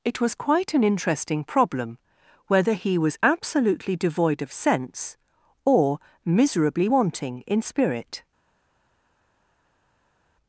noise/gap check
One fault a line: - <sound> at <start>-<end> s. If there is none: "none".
none